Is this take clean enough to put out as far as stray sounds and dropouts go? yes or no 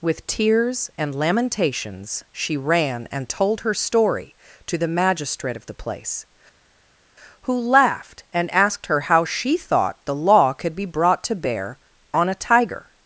yes